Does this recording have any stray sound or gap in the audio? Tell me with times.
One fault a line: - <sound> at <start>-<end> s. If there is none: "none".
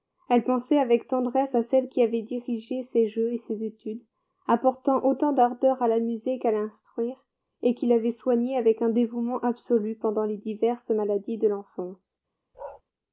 - bark at 12.5-12.8 s